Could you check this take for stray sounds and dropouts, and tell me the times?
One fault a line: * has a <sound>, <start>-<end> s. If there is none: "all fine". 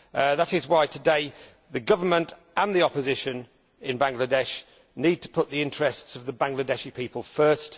all fine